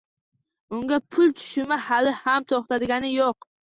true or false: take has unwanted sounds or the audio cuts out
false